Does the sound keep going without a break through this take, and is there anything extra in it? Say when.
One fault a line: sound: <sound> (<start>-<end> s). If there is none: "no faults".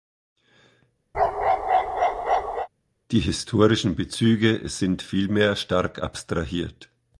sound: bark (1.1-2.7 s)